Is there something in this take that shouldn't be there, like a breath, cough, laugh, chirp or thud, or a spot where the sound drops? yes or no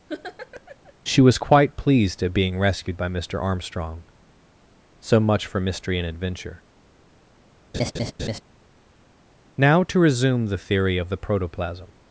yes